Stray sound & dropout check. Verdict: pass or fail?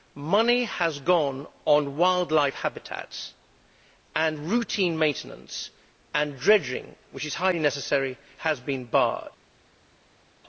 pass